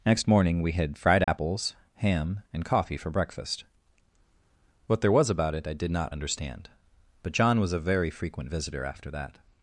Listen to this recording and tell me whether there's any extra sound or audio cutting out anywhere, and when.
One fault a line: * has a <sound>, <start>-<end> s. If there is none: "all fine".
* has a dropout, 1.2-1.3 s